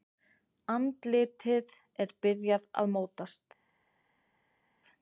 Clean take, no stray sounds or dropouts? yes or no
yes